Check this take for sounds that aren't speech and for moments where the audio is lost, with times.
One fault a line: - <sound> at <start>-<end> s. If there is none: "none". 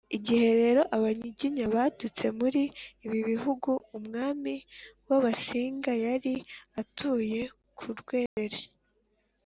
- dropout at 8.3-8.4 s